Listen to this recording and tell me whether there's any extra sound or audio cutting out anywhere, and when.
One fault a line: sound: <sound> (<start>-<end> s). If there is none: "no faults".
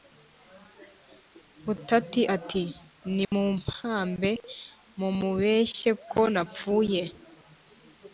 sound: dropout (3.2-3.3 s)